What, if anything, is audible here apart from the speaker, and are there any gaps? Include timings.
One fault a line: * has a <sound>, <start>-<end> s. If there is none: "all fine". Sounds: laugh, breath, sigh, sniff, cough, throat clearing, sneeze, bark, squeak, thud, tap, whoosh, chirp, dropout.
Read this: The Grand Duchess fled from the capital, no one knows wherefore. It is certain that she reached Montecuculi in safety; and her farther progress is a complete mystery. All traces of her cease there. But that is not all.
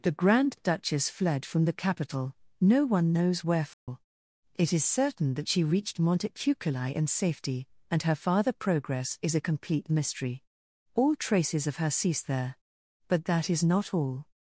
* has a dropout, 3.7-3.9 s